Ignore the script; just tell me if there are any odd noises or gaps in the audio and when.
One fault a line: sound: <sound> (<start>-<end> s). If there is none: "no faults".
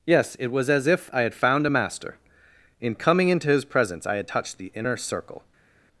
no faults